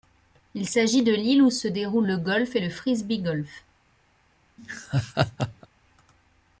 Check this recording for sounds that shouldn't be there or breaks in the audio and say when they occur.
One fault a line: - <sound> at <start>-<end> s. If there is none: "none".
- laugh at 4.6-5.7 s